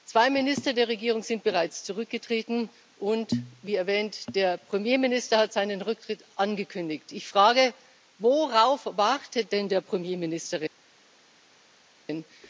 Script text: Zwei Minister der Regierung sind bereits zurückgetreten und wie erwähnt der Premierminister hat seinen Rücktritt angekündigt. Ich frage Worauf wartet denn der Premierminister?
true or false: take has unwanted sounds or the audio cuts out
false